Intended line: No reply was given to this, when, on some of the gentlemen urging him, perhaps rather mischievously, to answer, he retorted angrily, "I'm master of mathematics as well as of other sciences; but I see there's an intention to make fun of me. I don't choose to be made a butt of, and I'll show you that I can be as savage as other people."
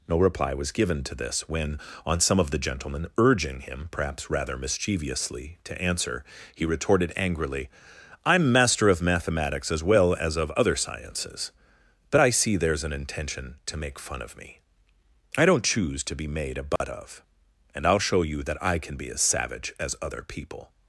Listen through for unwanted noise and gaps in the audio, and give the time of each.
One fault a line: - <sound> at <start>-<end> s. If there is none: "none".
- dropout at 16.8-16.8 s